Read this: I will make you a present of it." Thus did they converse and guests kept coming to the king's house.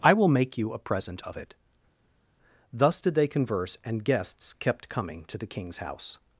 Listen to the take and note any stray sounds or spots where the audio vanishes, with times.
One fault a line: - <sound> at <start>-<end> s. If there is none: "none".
none